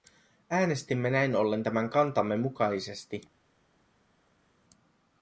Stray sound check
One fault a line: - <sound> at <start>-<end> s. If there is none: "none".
none